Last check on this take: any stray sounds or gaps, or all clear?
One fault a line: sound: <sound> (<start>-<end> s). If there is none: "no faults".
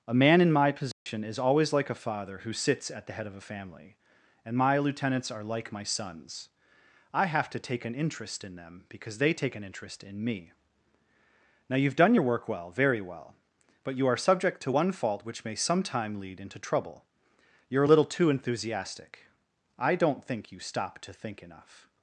sound: dropout (0.9-1.1 s)